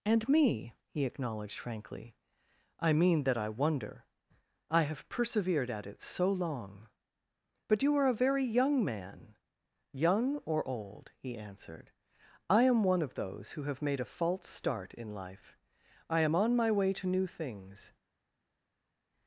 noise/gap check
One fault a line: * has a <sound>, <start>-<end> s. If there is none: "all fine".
all fine